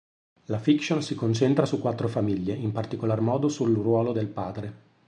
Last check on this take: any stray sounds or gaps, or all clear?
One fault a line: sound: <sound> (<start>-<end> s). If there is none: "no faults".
no faults